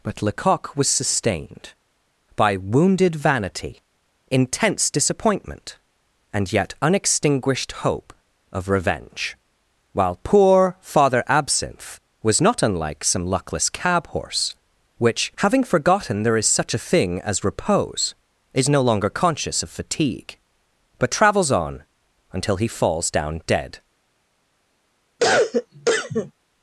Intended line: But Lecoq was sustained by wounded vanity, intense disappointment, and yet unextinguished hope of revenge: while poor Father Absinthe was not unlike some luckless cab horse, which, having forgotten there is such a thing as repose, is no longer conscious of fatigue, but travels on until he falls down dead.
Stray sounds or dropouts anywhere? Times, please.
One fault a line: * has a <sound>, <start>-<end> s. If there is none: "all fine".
* has a cough, 25.2-26.3 s